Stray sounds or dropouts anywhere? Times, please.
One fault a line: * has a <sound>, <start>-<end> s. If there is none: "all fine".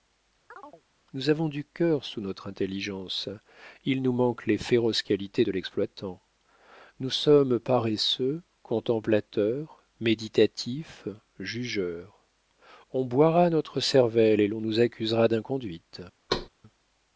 * has a chirp, 0.5-0.8 s
* has a thud, 16.3-16.5 s